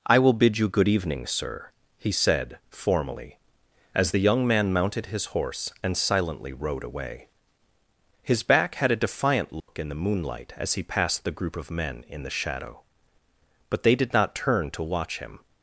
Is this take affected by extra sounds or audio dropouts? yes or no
yes